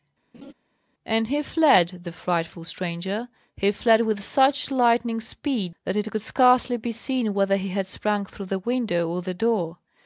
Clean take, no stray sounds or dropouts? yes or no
no